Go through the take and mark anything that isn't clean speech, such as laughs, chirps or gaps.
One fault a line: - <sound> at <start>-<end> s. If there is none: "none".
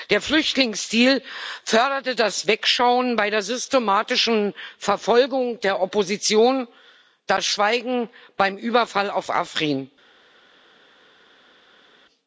none